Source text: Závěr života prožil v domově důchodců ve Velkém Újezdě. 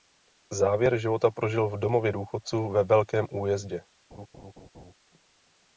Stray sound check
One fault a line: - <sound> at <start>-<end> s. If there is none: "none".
- laugh at 4.1-4.9 s